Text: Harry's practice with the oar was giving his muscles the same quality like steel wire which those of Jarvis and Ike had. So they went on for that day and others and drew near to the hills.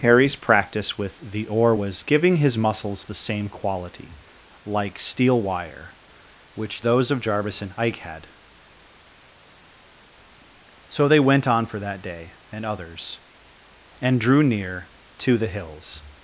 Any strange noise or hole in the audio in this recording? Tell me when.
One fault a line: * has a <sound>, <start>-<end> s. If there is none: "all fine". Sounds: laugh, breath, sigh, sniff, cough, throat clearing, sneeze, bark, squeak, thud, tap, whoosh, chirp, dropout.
all fine